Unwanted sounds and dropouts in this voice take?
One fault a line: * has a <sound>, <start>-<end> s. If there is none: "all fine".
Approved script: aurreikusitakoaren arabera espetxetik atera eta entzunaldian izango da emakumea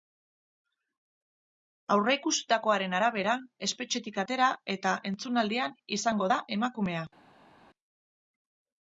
all fine